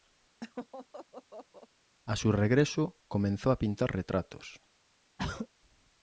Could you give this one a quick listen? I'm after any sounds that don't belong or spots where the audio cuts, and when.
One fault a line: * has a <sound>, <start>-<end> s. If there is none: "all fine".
* has a laugh, 0.4-1.7 s
* has a throat clearing, 5.2-5.5 s